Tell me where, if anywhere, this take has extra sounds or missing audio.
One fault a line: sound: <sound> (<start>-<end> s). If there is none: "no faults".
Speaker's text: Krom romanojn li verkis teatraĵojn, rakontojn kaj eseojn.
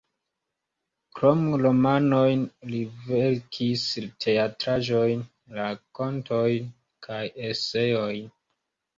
no faults